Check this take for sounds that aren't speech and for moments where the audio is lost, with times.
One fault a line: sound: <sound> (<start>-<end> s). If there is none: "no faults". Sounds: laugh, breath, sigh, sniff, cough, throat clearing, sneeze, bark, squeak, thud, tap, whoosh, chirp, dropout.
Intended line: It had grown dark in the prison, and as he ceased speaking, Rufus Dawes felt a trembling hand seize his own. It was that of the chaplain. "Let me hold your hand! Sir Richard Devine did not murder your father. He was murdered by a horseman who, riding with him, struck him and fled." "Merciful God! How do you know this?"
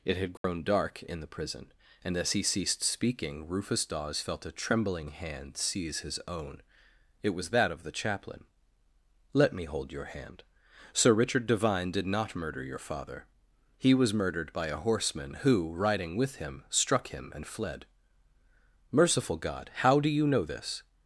sound: dropout (0.4-0.4 s)